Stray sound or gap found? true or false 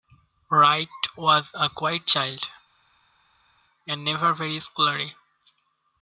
false